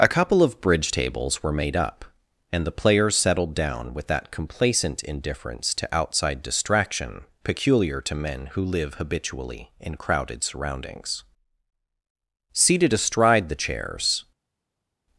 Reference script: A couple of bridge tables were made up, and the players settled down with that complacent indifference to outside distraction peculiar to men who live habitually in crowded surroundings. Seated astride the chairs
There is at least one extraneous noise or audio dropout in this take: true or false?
false